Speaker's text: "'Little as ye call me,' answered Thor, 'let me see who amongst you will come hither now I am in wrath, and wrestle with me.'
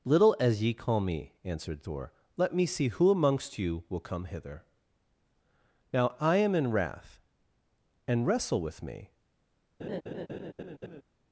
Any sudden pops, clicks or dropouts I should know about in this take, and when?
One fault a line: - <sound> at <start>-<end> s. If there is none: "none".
- laugh at 9.8-11.0 s